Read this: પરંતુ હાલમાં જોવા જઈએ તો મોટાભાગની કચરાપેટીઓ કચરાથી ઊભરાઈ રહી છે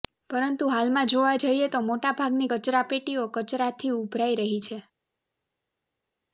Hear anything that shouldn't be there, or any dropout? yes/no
no